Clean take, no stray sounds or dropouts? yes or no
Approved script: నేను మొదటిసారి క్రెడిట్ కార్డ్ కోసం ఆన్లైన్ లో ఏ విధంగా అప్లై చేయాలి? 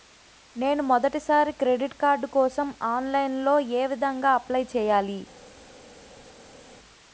yes